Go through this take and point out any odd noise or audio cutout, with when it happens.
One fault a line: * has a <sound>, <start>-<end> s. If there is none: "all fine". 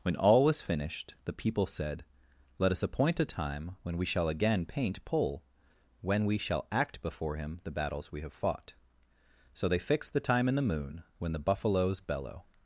all fine